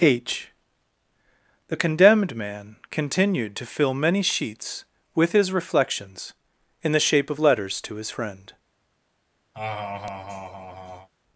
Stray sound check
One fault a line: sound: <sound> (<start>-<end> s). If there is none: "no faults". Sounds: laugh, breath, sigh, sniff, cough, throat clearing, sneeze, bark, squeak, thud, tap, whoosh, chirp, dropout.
sound: laugh (9.5-11.1 s)